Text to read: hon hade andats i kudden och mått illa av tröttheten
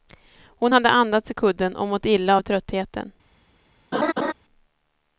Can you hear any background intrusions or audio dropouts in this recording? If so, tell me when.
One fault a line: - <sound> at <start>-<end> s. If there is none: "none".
- laugh at 3.9-4.3 s